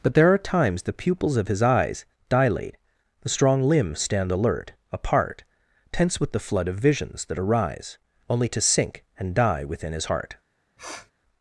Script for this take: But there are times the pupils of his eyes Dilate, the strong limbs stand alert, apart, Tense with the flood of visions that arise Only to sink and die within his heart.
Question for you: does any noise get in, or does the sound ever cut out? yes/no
yes